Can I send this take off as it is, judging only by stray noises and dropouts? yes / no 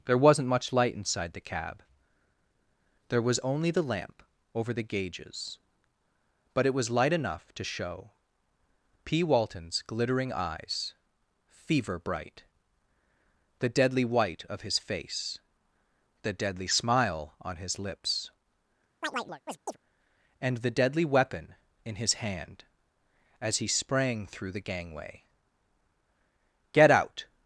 no